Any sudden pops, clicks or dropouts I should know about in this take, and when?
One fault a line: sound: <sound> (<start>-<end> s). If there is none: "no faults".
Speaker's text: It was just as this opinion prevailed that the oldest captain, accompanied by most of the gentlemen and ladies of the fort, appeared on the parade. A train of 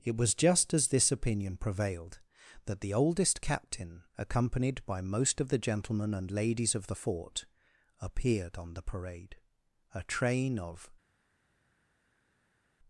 no faults